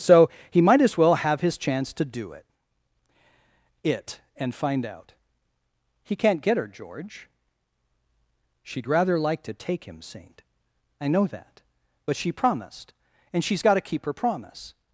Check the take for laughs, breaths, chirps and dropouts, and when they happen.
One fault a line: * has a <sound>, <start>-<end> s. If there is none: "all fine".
all fine